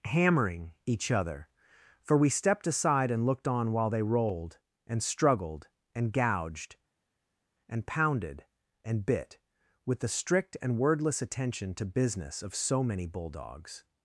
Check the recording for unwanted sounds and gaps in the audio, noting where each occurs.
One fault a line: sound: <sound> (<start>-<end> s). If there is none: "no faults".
no faults